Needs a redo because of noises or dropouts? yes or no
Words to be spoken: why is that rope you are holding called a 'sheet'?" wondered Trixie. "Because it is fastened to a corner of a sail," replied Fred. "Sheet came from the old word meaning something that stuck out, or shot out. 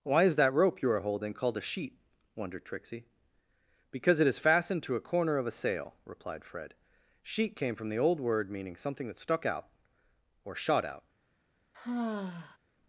yes